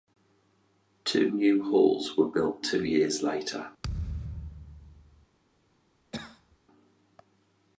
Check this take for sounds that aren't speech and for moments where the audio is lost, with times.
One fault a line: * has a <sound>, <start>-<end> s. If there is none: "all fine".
* has a thud, 3.8-5.3 s
* has a cough, 6.1-6.6 s